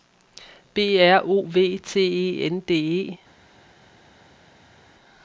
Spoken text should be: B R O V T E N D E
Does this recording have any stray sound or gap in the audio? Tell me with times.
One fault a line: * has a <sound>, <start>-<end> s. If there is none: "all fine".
all fine